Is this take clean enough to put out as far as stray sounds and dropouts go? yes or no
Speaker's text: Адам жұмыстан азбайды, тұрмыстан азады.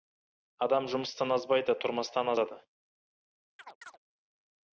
no